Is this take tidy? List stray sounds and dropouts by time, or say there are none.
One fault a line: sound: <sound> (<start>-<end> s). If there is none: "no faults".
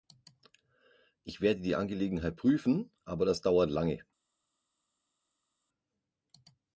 no faults